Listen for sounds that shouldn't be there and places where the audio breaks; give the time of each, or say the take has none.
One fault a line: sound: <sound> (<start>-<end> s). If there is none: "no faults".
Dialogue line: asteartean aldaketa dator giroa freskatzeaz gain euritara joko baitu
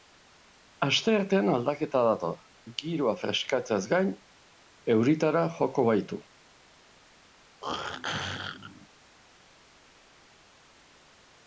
sound: throat clearing (7.6-8.9 s)